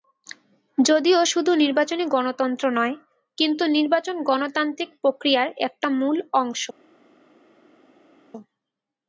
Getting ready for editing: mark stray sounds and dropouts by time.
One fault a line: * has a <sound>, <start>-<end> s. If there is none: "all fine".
all fine